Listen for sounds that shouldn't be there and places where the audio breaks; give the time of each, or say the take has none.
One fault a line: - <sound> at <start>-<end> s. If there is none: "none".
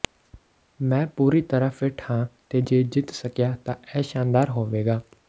none